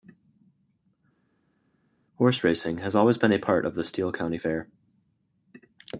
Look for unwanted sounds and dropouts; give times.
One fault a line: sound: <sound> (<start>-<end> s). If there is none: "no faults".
no faults